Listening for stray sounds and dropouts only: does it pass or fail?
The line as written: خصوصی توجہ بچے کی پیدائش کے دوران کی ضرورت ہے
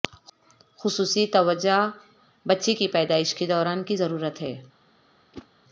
fail